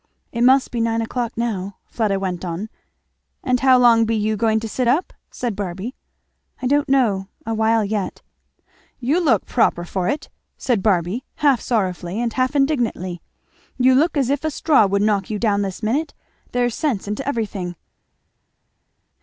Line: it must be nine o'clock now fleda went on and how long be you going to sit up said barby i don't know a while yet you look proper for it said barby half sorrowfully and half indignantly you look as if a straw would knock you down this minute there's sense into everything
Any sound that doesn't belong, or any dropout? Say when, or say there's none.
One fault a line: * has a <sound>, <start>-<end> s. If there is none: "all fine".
all fine